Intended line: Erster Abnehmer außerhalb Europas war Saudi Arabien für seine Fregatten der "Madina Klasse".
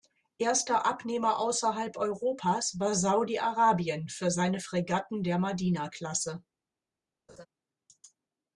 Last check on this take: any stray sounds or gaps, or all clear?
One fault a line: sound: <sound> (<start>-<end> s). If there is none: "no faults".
sound: laugh (7.3-7.5 s)